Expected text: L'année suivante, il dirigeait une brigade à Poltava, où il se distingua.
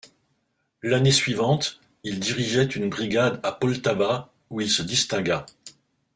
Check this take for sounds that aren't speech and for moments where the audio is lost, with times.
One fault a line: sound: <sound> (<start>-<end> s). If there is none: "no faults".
no faults